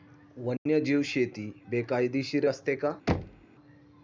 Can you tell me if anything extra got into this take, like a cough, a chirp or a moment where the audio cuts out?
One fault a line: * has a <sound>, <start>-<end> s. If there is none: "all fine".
* has a dropout, 0.6-0.7 s
* has a thud, 3.1-3.5 s